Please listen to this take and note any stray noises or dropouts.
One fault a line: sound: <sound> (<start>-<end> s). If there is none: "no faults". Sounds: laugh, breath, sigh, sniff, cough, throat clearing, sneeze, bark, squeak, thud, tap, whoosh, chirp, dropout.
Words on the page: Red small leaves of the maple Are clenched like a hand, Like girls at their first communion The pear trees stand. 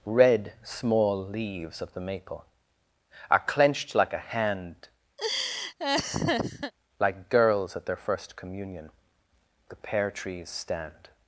sound: laugh (5.2-6.7 s)